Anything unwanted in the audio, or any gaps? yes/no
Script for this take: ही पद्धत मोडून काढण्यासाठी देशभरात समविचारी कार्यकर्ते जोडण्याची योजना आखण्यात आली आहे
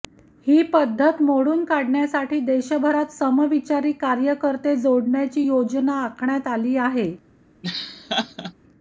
yes